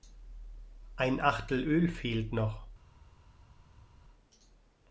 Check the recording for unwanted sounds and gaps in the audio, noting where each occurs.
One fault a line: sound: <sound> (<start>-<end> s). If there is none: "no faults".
no faults